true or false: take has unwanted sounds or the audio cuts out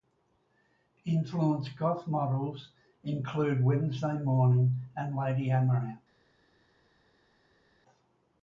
false